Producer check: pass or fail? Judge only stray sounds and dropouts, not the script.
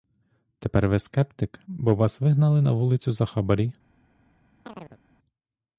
fail